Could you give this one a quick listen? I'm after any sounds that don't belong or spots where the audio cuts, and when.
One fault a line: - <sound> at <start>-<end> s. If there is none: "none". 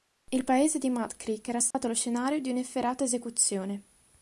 - dropout at 1.7-1.7 s